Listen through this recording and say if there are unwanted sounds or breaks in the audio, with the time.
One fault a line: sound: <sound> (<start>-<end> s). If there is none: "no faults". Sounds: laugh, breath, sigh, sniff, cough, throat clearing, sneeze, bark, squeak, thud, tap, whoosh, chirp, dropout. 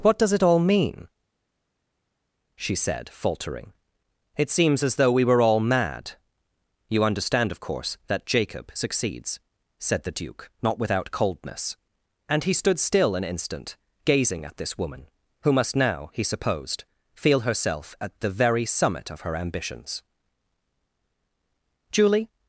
no faults